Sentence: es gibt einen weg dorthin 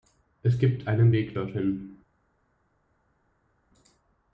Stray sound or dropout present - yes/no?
no